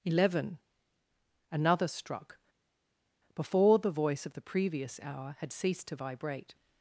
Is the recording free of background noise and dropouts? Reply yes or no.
yes